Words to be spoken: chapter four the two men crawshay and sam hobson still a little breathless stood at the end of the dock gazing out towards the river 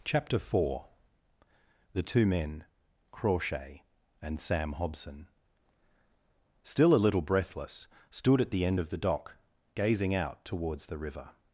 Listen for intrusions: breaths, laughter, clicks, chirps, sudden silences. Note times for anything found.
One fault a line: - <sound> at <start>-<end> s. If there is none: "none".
none